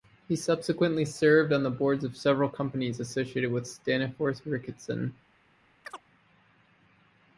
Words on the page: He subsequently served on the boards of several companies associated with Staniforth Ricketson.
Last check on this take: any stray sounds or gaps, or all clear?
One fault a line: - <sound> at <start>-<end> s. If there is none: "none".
- chirp at 5.8-6.0 s